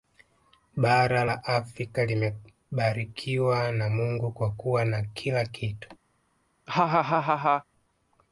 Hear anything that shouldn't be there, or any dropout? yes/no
yes